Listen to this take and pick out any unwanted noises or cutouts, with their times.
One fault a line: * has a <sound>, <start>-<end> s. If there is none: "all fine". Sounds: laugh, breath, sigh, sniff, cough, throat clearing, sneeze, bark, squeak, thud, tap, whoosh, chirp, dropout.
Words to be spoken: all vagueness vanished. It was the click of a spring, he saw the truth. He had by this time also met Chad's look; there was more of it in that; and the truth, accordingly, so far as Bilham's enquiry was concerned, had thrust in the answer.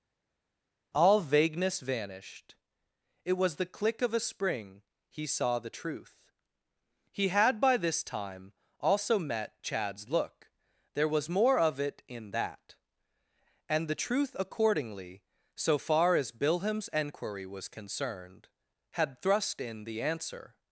all fine